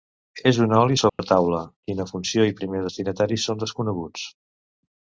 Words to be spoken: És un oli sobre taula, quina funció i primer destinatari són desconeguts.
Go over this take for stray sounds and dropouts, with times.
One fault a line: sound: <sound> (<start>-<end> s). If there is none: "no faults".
sound: dropout (1.1-1.2 s)